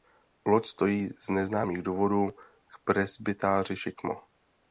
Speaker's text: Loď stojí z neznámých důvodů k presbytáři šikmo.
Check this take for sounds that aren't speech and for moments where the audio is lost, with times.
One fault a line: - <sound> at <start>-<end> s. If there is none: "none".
none